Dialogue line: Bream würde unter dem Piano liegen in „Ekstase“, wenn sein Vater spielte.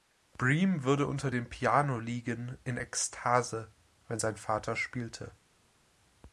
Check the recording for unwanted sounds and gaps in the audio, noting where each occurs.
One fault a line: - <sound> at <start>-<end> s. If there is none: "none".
none